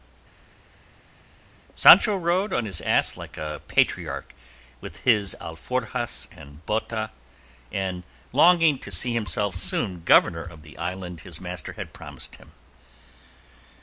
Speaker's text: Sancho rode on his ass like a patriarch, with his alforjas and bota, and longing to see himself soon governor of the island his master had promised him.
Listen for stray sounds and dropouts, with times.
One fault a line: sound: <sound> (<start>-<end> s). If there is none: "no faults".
no faults